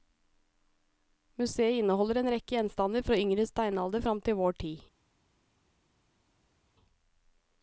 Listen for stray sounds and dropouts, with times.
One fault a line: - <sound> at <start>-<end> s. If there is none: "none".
none